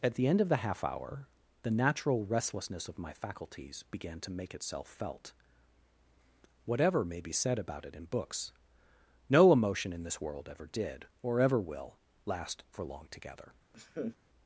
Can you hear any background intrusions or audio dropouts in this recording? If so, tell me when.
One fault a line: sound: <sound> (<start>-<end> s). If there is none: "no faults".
sound: laugh (13.7-14.2 s)